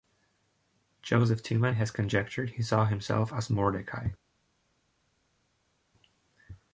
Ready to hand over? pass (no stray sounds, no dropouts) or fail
pass